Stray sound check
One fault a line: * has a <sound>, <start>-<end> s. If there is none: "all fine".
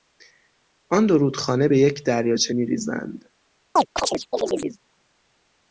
* has a chirp, 3.8-4.8 s